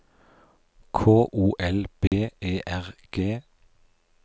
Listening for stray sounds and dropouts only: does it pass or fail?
fail